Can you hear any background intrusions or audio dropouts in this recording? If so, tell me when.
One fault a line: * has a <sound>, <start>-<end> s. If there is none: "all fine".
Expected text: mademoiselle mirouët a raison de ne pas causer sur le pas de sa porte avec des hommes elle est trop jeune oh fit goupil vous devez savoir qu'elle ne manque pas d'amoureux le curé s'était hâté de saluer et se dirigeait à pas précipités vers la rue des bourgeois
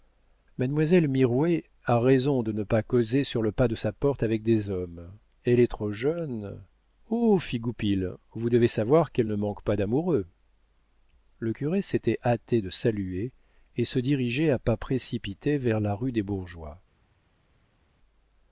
all fine